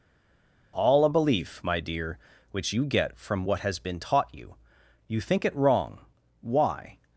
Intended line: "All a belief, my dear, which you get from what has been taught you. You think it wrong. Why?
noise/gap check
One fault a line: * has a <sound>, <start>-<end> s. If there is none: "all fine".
all fine